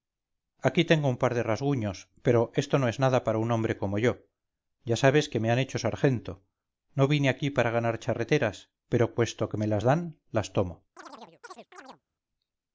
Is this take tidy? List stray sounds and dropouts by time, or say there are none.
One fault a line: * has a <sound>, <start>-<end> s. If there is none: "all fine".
* has a chirp, 11.0-12.0 s